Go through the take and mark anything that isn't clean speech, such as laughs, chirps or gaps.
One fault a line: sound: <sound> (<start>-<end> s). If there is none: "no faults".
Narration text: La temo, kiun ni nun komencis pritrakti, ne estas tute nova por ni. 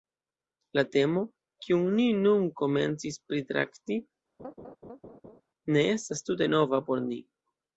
sound: laugh (4.4-5.4 s)